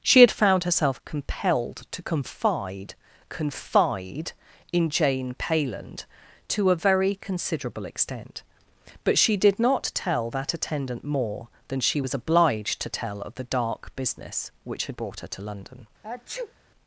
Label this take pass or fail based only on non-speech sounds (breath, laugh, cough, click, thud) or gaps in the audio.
fail